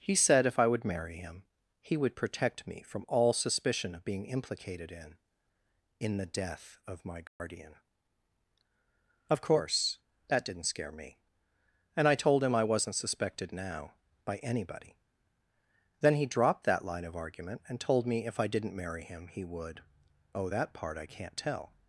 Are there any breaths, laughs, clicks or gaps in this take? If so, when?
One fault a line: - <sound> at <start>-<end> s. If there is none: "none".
- dropout at 7.3-7.4 s